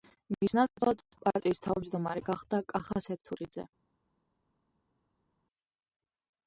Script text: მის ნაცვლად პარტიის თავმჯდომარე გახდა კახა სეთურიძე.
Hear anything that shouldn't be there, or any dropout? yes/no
no